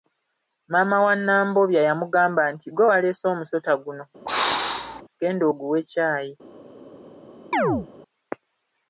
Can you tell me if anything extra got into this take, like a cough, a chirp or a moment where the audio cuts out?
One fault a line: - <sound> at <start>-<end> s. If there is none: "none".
- throat clearing at 4.3-5.0 s
- chirp at 7.5-7.9 s